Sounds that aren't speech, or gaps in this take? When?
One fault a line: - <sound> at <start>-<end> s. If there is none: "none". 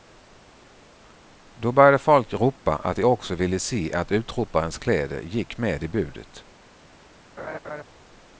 - laugh at 7.4-7.8 s